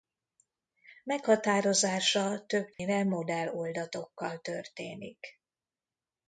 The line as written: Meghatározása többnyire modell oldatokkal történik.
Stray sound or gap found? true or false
true